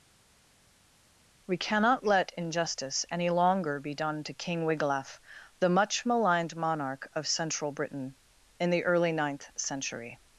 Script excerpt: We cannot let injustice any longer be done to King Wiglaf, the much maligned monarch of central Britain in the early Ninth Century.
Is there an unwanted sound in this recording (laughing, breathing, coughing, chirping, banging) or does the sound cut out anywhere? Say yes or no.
no